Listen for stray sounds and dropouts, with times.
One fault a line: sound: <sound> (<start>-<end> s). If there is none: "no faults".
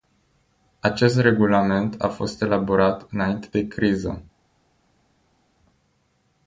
no faults